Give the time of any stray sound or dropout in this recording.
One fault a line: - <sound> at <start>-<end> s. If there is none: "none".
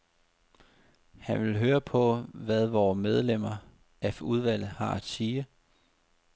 none